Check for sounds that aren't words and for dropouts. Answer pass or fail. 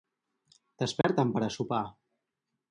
fail